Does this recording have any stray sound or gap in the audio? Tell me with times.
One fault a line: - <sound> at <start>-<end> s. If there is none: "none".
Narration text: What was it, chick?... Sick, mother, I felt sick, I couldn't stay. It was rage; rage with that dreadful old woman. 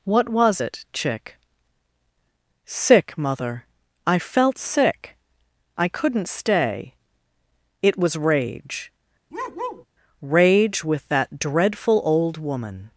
- bark at 9.3-9.9 s